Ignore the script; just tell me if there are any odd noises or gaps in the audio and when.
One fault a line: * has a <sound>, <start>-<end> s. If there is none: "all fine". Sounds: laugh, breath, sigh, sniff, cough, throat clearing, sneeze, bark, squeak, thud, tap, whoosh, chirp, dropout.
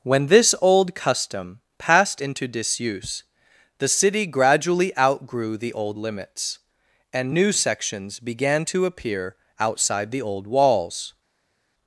all fine